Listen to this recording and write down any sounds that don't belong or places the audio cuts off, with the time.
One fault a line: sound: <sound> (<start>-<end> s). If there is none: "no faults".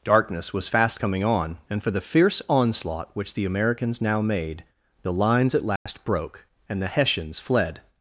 sound: dropout (5.8-5.9 s)